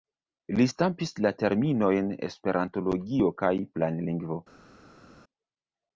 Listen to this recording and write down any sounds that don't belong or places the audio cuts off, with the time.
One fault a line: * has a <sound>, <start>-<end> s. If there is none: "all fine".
all fine